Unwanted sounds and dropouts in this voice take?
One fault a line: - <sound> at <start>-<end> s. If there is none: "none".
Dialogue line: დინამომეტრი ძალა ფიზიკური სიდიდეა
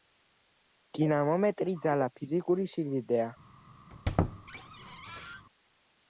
- squeak at 3.9-5.5 s